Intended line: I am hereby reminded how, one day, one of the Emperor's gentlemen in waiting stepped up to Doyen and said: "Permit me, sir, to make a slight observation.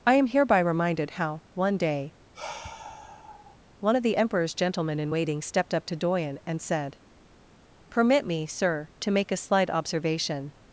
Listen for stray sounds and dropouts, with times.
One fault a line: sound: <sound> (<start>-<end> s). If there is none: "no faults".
sound: sigh (2.3-3.6 s)